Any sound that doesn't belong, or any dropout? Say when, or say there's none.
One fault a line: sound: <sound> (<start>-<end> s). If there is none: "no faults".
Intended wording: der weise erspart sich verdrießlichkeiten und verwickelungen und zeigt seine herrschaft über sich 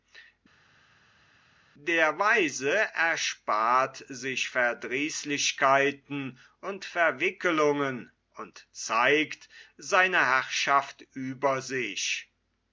no faults